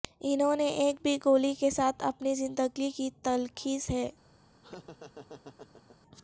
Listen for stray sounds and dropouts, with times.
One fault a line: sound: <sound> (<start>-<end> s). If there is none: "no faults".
sound: laugh (4.6-6.0 s)